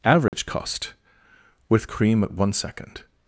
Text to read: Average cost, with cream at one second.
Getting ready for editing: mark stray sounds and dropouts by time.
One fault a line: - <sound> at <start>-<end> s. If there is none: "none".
- dropout at 0.3-0.3 s